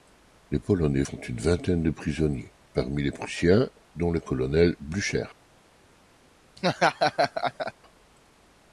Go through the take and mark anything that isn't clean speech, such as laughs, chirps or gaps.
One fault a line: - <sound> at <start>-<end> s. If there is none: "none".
- laugh at 6.6-7.7 s